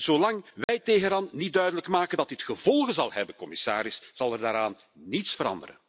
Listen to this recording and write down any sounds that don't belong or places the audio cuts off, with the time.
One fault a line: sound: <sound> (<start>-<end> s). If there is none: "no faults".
sound: dropout (0.6-0.7 s)